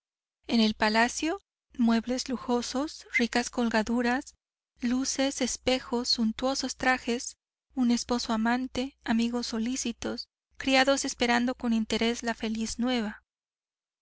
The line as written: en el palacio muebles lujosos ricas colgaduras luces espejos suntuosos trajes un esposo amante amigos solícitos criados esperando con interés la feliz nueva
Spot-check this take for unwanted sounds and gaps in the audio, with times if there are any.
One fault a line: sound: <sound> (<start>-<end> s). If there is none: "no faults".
no faults